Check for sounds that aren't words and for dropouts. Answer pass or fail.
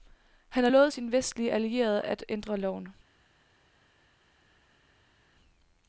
pass